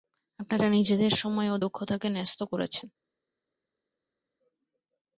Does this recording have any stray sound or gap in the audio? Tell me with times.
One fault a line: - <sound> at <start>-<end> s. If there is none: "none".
none